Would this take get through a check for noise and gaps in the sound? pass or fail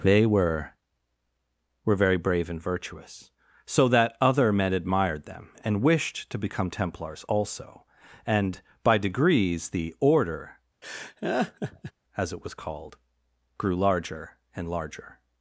fail